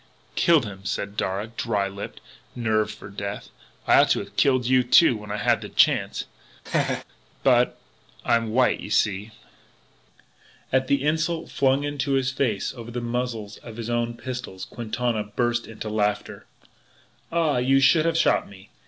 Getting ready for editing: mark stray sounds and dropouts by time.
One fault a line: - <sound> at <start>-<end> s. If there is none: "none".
- laugh at 6.7-7.0 s